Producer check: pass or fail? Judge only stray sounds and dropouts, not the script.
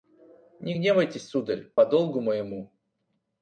fail